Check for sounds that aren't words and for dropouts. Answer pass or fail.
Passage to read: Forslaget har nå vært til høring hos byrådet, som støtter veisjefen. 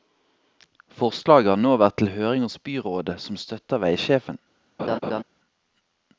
fail